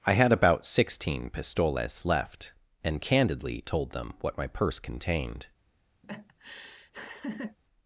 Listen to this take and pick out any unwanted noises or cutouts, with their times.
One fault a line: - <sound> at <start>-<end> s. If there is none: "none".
- laugh at 6.0-7.6 s